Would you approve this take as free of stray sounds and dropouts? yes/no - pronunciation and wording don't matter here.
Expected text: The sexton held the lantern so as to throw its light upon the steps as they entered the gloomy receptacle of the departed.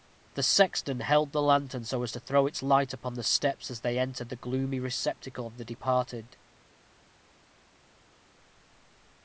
yes